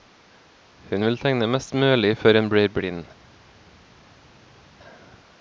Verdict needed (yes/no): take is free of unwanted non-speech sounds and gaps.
yes